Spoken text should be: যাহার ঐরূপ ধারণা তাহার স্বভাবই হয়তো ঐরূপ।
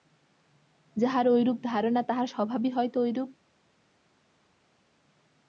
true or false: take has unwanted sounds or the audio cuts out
false